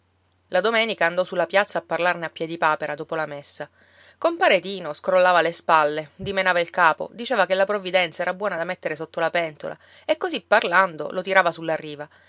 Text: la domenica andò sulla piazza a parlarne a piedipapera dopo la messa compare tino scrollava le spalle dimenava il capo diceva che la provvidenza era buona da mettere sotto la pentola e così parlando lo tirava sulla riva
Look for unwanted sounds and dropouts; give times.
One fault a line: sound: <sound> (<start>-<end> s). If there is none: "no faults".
no faults